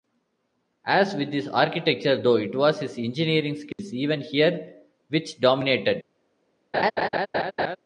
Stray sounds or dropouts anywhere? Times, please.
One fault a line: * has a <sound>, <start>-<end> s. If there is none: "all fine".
* has a dropout, 3.7-3.8 s
* has a laugh, 6.7-7.8 s